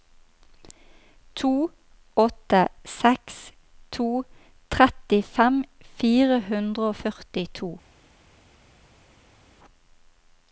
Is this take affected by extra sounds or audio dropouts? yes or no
no